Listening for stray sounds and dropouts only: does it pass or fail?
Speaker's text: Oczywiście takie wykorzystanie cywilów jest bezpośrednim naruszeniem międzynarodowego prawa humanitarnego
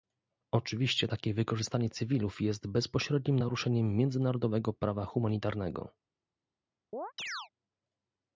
fail